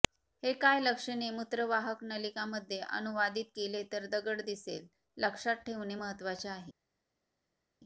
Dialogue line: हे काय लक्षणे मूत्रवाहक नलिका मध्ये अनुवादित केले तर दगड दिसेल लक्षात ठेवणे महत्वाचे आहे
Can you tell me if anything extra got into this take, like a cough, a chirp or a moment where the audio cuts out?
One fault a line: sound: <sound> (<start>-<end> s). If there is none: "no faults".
no faults